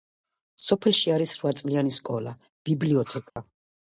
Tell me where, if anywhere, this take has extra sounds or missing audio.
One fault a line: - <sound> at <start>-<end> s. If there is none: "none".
- dropout at 3.3-3.4 s